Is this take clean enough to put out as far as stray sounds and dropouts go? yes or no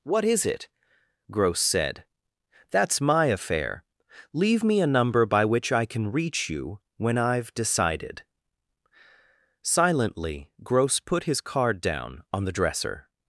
yes